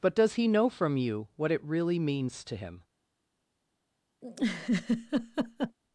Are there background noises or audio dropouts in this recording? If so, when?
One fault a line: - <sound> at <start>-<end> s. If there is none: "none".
- laugh at 4.2-5.8 s